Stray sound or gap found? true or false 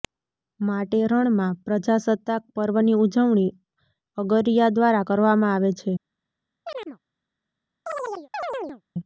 true